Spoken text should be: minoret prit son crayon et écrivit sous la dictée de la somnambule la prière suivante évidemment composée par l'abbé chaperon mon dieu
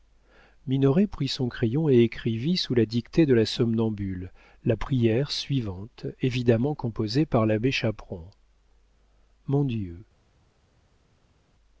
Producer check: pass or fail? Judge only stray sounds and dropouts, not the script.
pass